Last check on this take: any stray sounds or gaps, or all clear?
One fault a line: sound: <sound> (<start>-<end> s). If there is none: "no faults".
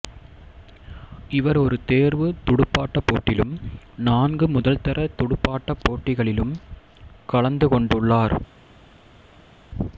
no faults